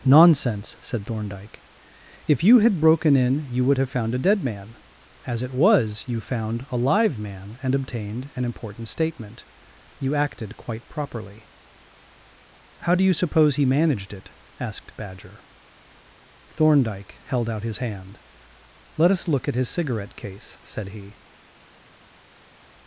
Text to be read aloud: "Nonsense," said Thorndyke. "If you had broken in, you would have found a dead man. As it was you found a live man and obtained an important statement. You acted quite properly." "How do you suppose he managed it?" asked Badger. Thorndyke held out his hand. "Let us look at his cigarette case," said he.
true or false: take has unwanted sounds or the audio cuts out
false